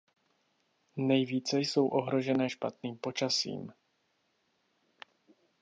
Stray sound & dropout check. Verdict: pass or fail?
pass